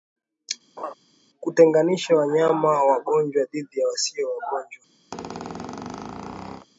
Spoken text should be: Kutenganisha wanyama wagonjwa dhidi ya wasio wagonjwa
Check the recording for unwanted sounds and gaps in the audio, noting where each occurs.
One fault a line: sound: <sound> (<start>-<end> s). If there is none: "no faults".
sound: laugh (0.8-0.9 s)
sound: squeak (5.1-6.7 s)